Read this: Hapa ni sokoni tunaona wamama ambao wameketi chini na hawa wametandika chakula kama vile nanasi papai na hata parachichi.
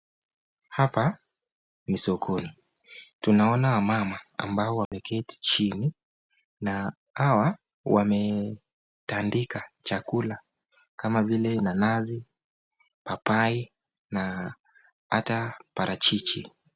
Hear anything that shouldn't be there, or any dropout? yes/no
yes